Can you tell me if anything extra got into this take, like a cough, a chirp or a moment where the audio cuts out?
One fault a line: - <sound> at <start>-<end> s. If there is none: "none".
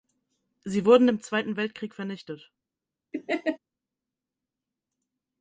- laugh at 3.1-3.6 s